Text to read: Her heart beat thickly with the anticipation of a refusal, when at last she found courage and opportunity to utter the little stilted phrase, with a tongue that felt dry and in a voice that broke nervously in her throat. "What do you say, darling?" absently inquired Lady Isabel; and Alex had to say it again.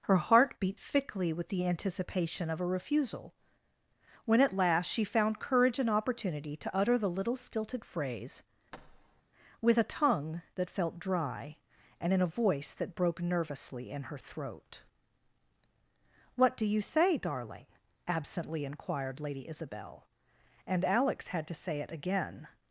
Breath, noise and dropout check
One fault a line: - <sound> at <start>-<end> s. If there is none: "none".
- thud at 8.7-9.2 s